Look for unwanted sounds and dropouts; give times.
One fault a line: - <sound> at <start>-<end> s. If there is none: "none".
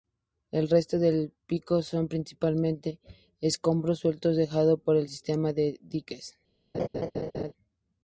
- laugh at 6.7-7.5 s